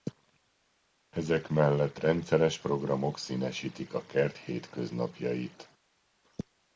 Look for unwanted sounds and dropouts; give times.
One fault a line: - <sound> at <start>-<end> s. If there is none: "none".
none